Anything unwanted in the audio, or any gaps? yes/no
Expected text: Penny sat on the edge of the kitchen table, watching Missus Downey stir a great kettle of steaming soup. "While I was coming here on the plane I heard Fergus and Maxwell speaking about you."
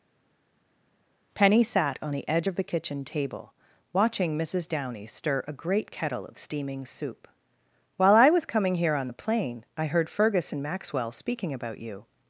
no